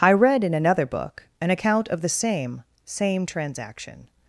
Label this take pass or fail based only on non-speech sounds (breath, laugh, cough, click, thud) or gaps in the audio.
pass